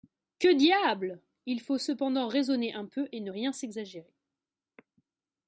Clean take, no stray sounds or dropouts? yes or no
yes